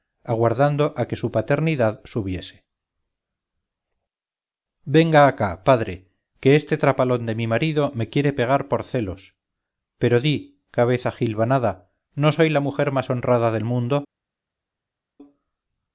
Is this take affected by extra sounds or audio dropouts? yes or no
no